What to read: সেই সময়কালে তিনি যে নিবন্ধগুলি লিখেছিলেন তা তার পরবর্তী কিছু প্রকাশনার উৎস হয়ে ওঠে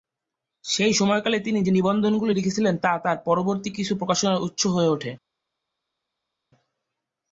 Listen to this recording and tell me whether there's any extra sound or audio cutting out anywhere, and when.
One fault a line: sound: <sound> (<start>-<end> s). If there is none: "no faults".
no faults